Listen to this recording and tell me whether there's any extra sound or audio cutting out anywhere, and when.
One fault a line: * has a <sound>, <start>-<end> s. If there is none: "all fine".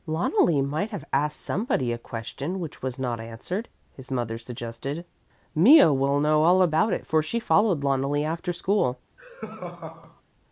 * has a laugh, 9.2-10.2 s